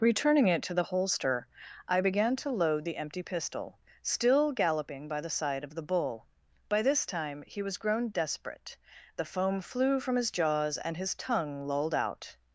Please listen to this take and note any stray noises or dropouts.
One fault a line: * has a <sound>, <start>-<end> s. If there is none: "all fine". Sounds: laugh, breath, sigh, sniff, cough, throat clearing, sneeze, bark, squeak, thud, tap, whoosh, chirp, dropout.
all fine